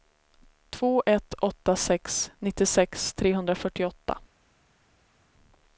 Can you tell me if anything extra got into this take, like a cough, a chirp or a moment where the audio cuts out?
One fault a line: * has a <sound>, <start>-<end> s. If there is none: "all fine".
all fine